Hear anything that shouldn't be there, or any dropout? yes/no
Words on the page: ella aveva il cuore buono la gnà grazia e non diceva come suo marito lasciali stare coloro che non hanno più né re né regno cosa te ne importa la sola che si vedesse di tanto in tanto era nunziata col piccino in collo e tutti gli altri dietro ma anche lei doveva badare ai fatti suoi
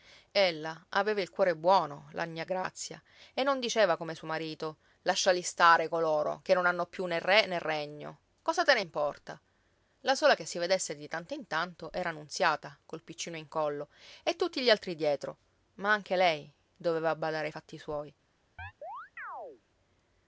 yes